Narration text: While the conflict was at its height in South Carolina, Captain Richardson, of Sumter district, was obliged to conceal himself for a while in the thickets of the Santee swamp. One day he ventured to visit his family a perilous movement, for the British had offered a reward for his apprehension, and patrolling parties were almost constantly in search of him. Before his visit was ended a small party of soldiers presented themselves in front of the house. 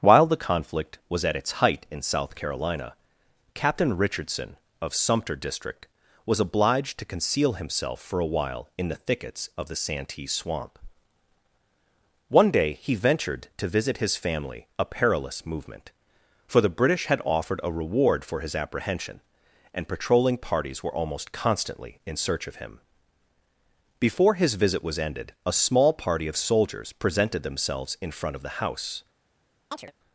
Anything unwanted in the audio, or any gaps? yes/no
yes